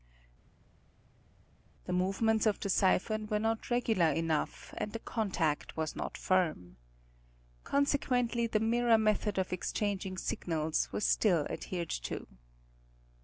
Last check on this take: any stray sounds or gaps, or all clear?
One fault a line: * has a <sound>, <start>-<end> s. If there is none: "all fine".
all fine